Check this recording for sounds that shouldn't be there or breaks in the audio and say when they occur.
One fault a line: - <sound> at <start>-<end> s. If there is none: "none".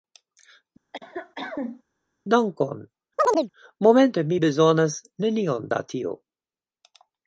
- cough at 0.9-1.8 s
- chirp at 3.2-3.5 s